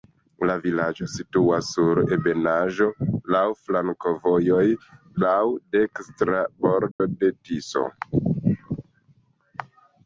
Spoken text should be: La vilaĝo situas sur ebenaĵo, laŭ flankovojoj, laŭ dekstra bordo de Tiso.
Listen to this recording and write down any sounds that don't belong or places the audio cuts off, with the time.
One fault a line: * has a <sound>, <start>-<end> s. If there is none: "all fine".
* has a dropout, 6.9-7.0 s